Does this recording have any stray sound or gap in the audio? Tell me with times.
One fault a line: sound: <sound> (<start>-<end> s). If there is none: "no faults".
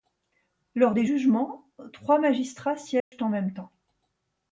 sound: dropout (3.0-3.1 s)